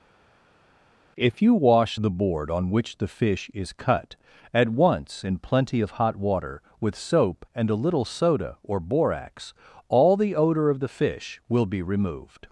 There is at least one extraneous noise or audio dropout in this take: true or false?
false